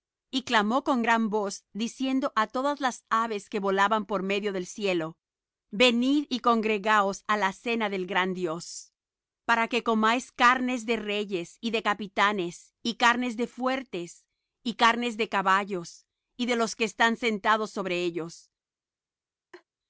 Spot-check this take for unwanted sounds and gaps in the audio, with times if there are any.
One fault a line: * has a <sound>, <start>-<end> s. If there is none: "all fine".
* has a laugh, 19.5-19.6 s